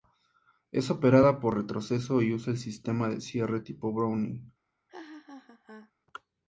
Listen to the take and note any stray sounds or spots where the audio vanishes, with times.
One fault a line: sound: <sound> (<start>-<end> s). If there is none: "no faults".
sound: laugh (4.9-5.9 s)